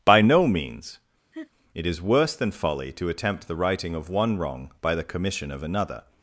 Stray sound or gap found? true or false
true